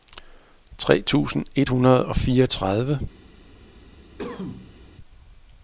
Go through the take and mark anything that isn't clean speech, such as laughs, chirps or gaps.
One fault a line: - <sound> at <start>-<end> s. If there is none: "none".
- cough at 4.2-4.8 s